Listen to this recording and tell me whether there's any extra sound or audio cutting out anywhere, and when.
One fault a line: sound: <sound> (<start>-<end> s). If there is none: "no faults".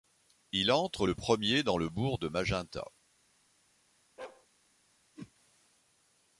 sound: bark (4.2-4.5 s)
sound: whoosh (5.2-5.3 s)